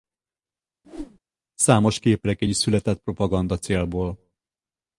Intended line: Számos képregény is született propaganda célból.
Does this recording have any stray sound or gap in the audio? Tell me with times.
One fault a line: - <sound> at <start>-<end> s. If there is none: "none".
- whoosh at 0.8-1.2 s